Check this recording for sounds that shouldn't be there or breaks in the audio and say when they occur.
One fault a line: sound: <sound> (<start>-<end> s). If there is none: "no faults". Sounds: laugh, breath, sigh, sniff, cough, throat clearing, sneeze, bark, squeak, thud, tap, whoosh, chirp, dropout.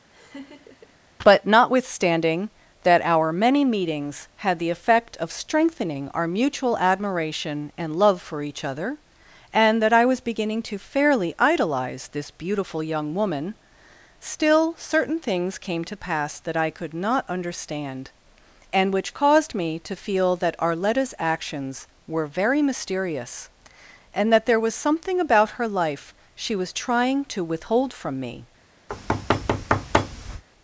sound: laugh (0.1-1.0 s)
sound: thud (28.9-30.4 s)